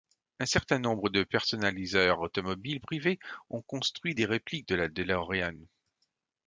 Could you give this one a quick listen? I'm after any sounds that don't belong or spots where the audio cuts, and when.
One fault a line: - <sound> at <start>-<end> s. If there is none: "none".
none